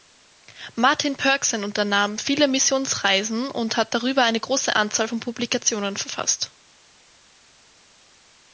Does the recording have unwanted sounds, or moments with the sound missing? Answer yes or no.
no